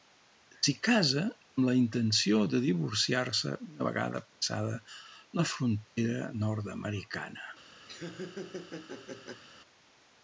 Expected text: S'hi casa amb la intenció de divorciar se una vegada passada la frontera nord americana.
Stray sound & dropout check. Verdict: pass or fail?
fail